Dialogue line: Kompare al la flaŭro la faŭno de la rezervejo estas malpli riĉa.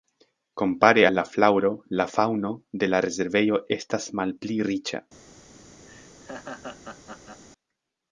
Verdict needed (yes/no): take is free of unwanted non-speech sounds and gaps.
no